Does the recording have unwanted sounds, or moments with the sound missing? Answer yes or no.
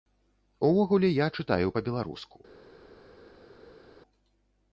no